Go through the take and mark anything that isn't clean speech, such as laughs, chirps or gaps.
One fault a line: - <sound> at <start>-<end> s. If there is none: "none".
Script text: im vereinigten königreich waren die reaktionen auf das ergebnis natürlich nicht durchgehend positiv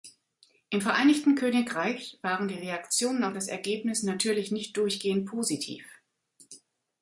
none